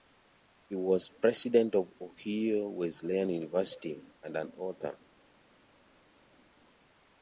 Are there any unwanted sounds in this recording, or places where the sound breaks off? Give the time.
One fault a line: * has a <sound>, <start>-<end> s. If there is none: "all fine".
all fine